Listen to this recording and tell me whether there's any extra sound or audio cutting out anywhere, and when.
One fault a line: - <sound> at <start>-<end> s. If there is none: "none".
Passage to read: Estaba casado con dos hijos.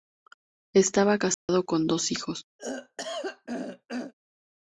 - dropout at 1.3-1.5 s
- throat clearing at 2.6-4.1 s